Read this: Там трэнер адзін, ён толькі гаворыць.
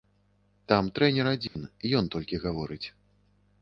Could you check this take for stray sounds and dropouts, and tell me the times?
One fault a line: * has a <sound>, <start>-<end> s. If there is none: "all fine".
* has a dropout, 1.5-1.6 s